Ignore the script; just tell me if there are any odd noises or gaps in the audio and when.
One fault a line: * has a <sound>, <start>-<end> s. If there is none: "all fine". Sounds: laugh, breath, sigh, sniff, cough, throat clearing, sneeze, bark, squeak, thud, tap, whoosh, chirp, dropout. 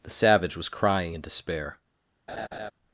* has a laugh, 2.3-2.7 s